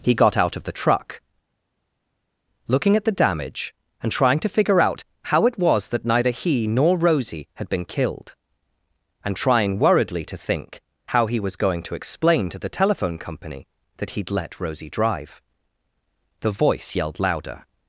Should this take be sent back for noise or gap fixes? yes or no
no